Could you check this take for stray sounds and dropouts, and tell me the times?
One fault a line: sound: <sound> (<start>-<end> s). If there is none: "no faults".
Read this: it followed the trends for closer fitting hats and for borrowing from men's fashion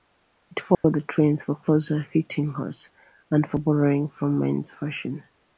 sound: dropout (0.7-0.8 s)